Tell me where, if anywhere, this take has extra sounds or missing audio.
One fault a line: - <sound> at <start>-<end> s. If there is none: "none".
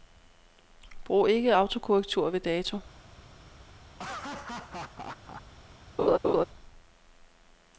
- laugh at 3.9-5.4 s
- laugh at 6.0-6.5 s